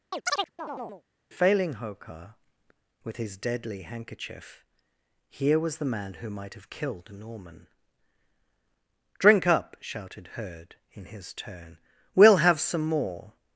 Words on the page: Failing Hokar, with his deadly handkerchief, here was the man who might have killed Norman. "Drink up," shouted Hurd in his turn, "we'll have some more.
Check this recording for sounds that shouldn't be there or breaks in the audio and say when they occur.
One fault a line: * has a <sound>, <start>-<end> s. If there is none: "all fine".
* has a chirp, 0.1-1.0 s